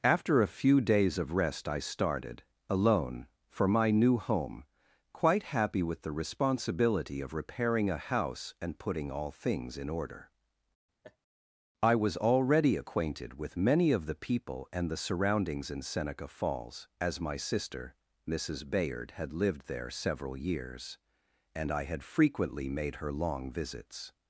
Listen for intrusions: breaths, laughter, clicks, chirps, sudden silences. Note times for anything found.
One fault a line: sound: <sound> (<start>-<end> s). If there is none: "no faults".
sound: laugh (11.0-11.2 s)